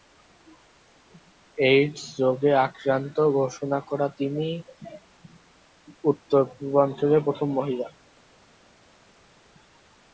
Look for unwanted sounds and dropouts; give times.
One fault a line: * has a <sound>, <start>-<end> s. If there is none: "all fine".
all fine